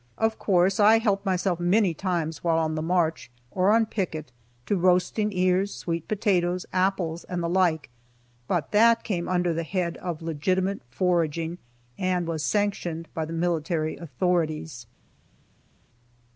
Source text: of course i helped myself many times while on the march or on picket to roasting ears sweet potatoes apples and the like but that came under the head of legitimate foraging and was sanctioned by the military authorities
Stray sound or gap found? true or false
false